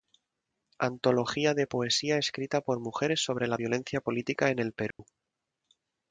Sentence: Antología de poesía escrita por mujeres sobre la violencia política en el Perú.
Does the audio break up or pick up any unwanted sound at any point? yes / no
yes